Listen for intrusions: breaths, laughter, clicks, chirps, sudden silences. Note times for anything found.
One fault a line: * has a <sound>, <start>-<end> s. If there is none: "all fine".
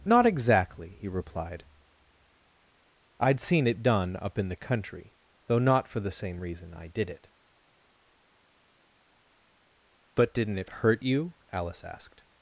all fine